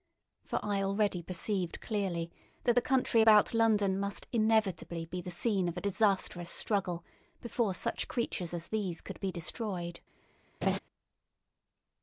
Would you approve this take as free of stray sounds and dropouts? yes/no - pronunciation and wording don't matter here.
no